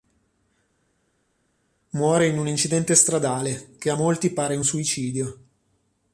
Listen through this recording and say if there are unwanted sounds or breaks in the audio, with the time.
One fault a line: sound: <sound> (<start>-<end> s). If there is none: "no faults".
no faults